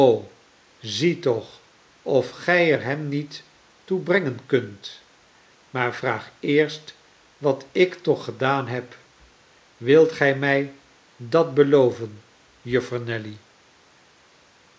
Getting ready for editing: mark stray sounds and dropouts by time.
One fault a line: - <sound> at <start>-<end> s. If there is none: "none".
none